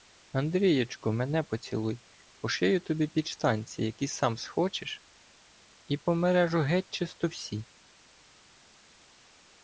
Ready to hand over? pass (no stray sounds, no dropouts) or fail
pass